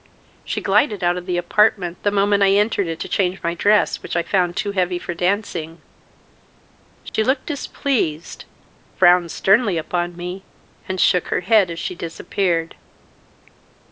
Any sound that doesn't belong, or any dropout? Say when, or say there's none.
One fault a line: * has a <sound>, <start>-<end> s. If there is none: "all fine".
* has a dropout, 7.1-7.1 s